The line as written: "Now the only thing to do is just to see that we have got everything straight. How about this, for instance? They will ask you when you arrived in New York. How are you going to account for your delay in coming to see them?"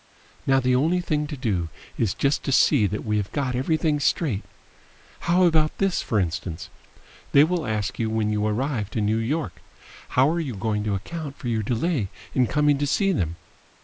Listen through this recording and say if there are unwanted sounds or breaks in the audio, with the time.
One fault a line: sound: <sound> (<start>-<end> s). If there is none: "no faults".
no faults